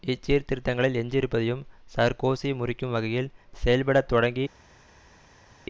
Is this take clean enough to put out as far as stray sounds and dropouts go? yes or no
yes